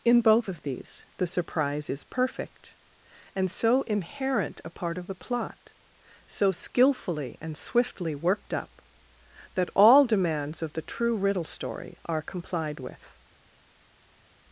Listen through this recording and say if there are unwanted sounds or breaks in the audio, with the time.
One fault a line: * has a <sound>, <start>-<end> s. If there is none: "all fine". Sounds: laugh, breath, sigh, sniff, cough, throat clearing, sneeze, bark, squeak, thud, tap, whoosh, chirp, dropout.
all fine